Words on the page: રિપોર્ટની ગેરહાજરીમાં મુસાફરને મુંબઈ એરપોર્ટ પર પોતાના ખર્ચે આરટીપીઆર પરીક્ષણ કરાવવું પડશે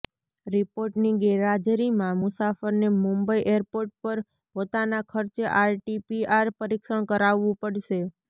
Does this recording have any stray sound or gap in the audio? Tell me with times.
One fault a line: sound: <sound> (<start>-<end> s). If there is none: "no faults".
no faults